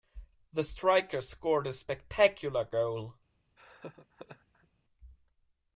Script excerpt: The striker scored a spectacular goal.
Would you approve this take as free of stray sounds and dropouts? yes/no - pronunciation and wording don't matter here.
no